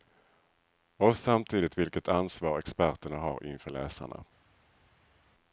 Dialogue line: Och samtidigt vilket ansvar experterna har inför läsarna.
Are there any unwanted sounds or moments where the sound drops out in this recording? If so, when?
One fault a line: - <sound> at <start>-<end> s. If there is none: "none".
none